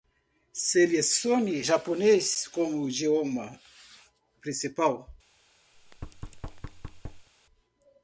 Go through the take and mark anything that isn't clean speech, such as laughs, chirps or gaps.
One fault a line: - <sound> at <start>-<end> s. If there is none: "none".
- thud at 5.7-7.3 s